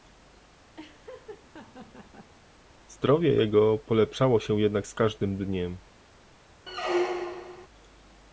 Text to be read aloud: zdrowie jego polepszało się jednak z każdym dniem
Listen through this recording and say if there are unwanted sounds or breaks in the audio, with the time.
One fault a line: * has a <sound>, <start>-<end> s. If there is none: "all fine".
* has a laugh, 0.8-2.3 s
* has a squeak, 6.7-7.7 s